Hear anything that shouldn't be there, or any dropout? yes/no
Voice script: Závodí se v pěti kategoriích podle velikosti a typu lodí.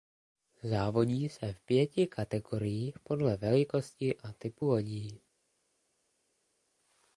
no